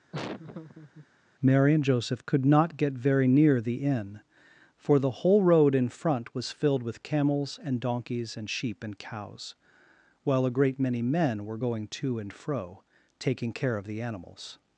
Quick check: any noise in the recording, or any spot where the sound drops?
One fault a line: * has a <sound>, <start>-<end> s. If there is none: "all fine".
* has a laugh, 0.1-1.1 s